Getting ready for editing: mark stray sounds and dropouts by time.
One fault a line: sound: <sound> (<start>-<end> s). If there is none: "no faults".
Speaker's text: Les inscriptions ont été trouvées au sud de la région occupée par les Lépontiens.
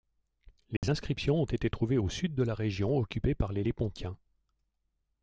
sound: dropout (0.8-0.8 s)